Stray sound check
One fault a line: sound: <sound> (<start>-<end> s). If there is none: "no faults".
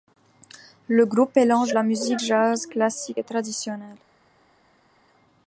no faults